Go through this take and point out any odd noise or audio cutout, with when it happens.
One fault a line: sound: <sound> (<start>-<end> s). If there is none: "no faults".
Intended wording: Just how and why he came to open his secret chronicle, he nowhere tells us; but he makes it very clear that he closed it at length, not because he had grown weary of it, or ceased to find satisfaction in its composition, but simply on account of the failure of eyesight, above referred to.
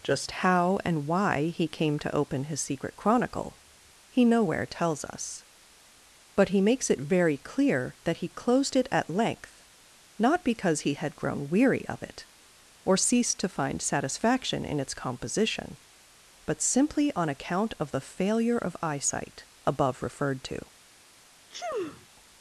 sound: sneeze (21.5-22.1 s)